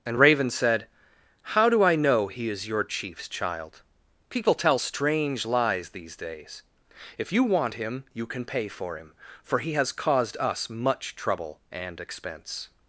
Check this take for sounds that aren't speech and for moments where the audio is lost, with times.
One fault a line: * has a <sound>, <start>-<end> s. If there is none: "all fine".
all fine